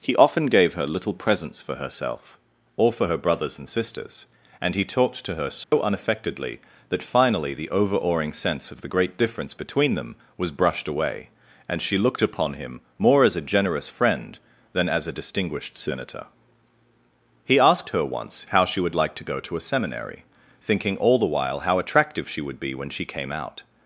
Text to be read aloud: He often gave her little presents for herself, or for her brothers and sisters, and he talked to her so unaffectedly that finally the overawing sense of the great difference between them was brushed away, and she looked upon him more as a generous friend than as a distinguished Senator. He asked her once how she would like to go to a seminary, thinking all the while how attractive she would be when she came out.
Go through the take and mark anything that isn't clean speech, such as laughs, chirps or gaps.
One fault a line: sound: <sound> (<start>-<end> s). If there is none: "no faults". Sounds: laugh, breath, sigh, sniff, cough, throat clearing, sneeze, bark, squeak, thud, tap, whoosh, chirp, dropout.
sound: dropout (5.6-5.7 s)